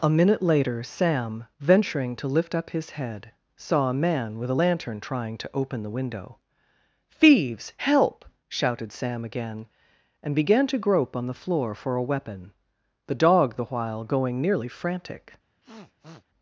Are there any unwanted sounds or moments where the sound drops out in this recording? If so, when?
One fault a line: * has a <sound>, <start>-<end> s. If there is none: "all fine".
* has a sniff, 15.6-16.3 s